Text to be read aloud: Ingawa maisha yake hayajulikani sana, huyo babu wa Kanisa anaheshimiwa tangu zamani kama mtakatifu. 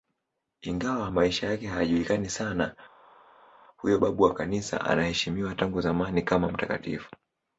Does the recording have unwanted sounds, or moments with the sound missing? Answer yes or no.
no